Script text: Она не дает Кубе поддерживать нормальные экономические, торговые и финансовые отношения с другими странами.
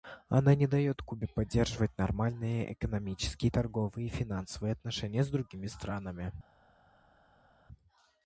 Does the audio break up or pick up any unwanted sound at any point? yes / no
no